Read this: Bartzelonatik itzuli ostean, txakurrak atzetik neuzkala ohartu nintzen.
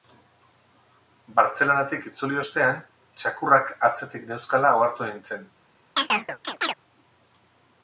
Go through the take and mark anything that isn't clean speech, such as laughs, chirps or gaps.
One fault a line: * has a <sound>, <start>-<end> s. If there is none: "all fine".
* has a chirp, 6.0-6.7 s